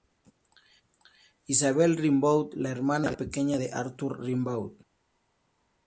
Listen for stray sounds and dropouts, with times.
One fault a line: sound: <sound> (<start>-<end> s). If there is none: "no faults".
no faults